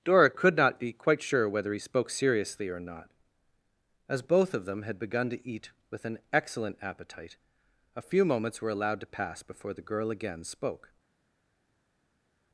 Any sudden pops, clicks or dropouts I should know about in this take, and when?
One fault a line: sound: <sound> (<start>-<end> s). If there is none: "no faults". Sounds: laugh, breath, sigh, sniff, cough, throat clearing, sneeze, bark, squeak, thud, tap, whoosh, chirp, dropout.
no faults